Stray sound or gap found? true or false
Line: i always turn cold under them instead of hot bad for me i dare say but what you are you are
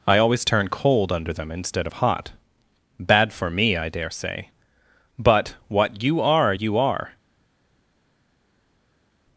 false